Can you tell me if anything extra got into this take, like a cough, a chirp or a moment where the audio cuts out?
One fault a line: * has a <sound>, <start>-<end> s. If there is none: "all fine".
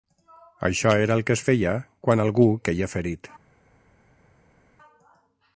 all fine